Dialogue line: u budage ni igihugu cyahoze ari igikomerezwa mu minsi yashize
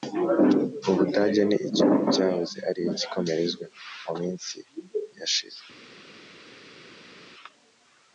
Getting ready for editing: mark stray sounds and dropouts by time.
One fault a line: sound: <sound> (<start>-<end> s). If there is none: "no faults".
no faults